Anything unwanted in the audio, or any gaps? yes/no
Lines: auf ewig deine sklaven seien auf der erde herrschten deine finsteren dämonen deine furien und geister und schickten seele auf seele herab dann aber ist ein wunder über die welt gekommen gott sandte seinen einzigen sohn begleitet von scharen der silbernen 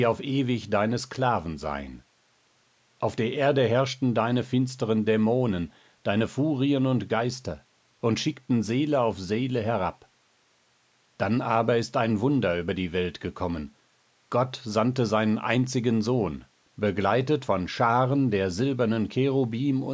no